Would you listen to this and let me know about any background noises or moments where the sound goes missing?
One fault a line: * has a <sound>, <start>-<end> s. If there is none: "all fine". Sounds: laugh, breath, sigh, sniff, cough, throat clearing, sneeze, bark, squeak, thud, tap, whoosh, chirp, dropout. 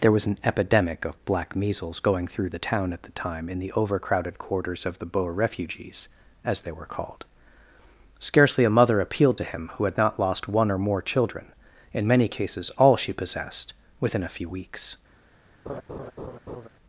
* has a laugh, 15.7-16.7 s